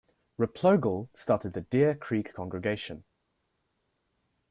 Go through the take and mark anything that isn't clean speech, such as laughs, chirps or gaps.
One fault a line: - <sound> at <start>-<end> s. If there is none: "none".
none